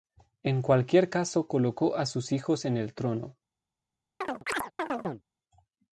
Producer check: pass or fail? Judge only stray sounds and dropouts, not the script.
fail